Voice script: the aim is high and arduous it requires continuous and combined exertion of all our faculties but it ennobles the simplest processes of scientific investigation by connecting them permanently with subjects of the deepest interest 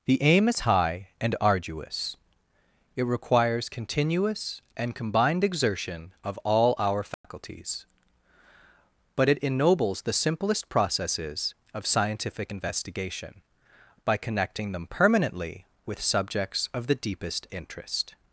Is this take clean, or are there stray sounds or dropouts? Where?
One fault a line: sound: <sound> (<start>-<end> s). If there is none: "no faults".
sound: dropout (7.1-7.2 s)